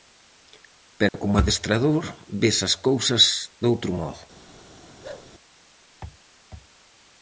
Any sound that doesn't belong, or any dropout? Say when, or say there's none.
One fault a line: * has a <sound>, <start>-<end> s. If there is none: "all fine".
* has a dropout, 1.1-1.1 s
* has a bark, 5.0-5.3 s